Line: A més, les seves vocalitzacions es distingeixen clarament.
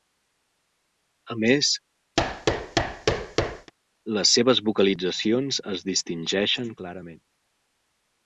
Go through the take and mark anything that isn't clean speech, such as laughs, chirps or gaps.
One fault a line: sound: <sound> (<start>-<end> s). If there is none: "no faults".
sound: thud (2.2-3.7 s)